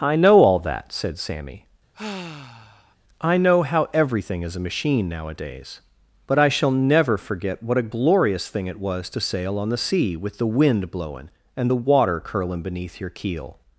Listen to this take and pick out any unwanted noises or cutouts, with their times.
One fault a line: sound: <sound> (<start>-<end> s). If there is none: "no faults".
sound: sigh (1.9-3.0 s)